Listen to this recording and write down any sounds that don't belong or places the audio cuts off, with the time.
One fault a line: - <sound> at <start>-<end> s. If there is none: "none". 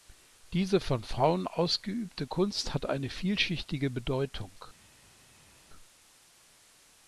none